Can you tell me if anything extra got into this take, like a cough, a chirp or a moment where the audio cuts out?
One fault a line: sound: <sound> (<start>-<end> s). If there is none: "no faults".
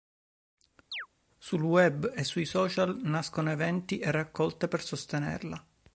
sound: chirp (0.9-1.1 s)